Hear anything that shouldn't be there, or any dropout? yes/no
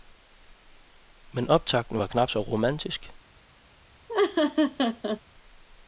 yes